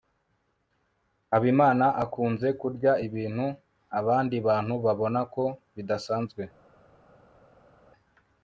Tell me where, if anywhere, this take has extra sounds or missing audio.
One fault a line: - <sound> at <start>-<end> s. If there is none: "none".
none